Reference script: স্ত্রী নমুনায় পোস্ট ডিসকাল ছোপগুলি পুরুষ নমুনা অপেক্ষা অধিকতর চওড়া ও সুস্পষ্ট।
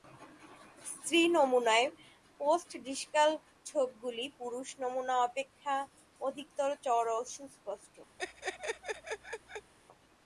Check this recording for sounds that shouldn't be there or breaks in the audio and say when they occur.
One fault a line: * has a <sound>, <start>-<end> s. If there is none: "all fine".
* has a laugh, 8.2-9.7 s